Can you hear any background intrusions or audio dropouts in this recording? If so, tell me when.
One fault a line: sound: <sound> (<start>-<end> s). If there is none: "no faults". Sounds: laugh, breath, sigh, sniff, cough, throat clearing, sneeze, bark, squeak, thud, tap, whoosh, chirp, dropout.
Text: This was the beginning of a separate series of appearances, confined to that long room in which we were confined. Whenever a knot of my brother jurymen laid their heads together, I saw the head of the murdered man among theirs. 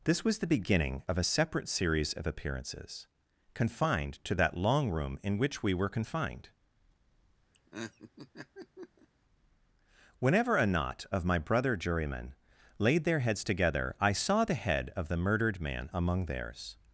sound: laugh (7.5-9.1 s)